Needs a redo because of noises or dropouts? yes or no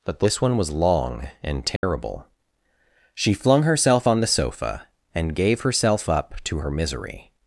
yes